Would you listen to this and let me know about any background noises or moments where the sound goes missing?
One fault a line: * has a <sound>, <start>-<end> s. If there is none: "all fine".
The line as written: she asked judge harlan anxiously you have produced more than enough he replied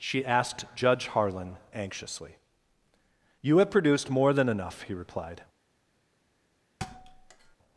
* has a thud, 6.8-7.6 s